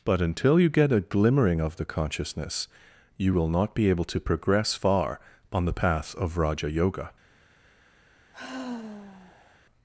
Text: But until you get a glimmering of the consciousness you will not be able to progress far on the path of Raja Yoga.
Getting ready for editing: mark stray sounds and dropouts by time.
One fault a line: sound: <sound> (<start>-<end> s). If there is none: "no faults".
sound: sigh (8.3-9.6 s)